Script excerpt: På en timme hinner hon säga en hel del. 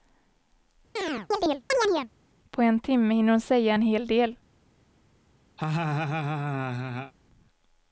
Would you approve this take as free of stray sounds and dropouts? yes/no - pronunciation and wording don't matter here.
no